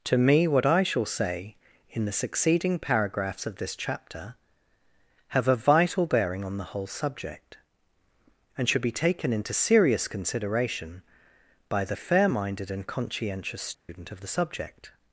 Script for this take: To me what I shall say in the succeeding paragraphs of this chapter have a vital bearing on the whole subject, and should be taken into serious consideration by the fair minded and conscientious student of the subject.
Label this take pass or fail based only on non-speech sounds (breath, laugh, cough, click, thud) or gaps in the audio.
fail